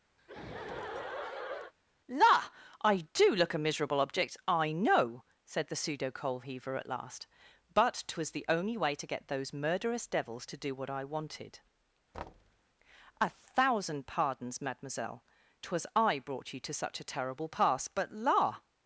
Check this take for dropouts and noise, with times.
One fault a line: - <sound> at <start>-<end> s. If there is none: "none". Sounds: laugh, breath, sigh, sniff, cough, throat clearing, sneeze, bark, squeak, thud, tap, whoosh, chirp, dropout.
- laugh at 0.2-1.7 s
- thud at 12.1-12.6 s